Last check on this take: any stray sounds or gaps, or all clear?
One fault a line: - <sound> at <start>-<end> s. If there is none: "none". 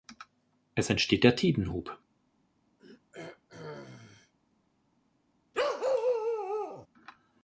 - throat clearing at 2.8-4.3 s
- bark at 5.5-6.9 s